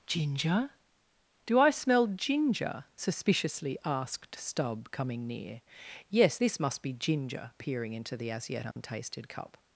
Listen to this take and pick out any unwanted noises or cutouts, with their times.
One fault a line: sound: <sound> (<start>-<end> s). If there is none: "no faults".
sound: dropout (8.7-8.8 s)